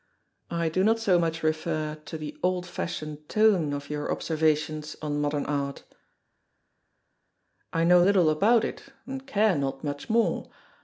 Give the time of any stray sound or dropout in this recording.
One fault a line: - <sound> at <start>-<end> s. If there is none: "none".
none